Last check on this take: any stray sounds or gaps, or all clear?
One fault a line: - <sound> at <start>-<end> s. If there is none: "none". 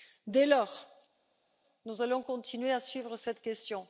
none